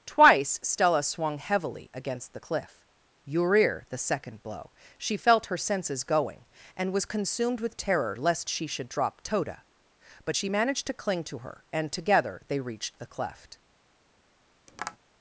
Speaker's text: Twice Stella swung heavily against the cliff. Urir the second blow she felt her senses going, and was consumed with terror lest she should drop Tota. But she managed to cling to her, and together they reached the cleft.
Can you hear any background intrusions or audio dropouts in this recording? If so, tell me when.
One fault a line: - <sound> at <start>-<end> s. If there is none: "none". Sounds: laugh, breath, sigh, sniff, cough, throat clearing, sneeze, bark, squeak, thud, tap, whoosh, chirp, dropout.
- tap at 14.7-15.0 s